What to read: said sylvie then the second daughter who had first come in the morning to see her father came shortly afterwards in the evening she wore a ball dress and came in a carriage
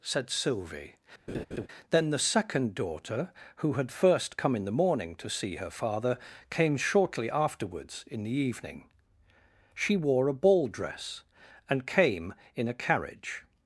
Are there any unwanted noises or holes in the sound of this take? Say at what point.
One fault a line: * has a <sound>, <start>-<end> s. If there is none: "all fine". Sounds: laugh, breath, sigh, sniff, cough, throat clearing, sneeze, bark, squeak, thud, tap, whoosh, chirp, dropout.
* has a laugh, 1.3-1.7 s